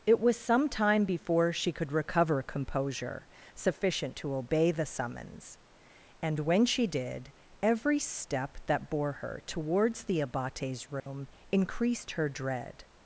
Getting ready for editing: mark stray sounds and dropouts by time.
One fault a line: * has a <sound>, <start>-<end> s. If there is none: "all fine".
* has a dropout, 11.0-11.1 s